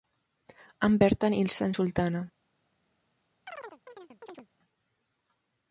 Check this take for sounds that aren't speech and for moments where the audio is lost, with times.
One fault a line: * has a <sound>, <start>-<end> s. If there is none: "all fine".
* has a chirp, 3.5-4.5 s